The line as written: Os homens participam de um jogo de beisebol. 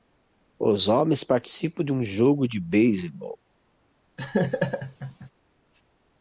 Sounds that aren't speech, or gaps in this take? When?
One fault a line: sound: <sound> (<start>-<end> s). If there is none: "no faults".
sound: laugh (4.2-5.3 s)